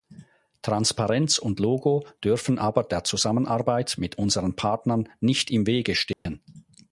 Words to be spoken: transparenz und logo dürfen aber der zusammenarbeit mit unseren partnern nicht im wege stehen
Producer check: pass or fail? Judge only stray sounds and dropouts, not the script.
fail